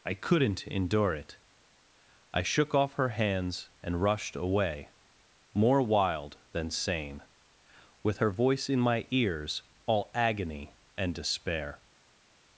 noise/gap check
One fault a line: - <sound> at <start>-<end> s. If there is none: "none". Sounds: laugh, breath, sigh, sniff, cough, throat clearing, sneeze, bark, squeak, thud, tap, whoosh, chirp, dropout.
none